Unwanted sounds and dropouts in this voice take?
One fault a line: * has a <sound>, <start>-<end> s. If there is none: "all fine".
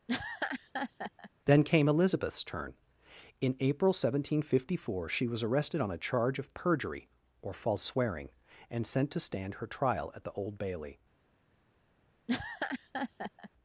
* has a laugh, 0.1-1.3 s
* has a laugh, 12.3-13.5 s